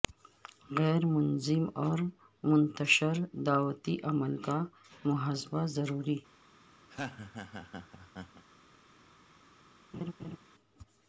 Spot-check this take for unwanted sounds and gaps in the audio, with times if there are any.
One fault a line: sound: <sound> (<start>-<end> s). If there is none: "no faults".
sound: laugh (6.9-8.4 s)
sound: laugh (9.9-10.4 s)